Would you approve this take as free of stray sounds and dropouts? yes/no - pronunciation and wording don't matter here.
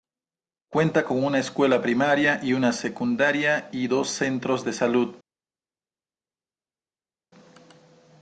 yes